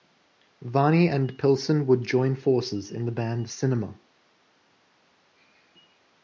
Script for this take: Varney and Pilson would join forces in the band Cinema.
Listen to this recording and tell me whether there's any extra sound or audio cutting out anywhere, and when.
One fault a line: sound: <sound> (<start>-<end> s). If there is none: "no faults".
no faults